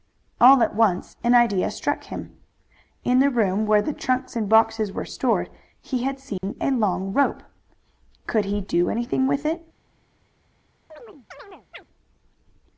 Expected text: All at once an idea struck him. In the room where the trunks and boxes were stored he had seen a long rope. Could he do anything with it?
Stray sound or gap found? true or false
true